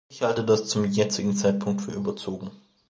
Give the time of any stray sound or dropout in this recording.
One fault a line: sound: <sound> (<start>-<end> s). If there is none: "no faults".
no faults